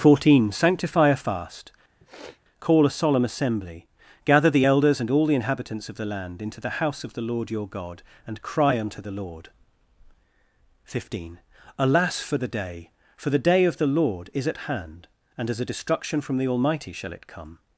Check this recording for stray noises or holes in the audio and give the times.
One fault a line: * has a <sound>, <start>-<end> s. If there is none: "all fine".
* has a sniff, 2.0-2.4 s